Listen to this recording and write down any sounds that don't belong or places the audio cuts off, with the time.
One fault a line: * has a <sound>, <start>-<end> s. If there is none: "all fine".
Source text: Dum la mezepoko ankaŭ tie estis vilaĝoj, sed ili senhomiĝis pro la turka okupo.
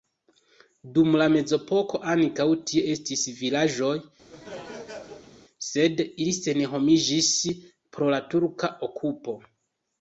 * has a laugh, 4.3-5.4 s